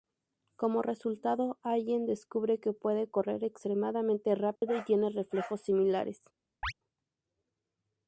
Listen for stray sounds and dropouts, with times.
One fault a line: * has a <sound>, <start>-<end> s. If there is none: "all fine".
* has a dropout, 4.6-4.6 s
* has a chirp, 6.6-6.7 s